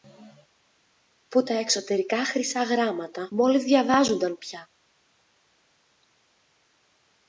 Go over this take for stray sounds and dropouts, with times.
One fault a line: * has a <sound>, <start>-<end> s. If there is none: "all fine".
all fine